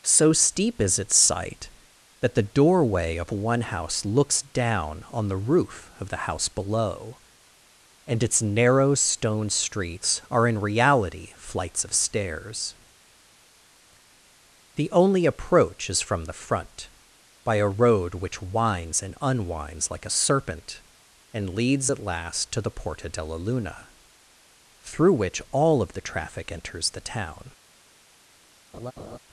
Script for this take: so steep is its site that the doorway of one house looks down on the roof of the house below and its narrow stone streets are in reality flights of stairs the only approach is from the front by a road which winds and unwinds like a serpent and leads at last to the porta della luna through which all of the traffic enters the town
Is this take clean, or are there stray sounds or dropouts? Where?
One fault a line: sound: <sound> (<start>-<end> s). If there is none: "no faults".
sound: laugh (28.7-29.2 s)